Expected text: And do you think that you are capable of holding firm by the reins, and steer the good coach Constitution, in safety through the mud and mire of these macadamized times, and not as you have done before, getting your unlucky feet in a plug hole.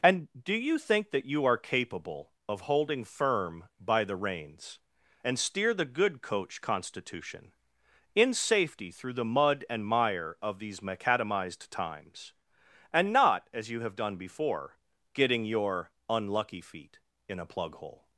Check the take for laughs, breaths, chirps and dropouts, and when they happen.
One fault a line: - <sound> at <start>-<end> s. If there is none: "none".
none